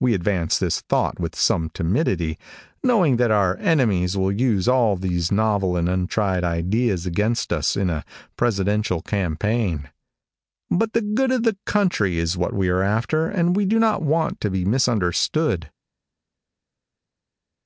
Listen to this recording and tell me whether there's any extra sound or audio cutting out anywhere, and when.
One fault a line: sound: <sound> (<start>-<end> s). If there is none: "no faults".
no faults